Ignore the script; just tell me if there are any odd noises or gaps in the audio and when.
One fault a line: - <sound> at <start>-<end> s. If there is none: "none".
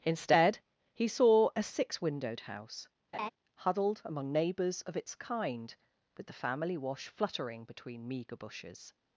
- laugh at 3.1-3.3 s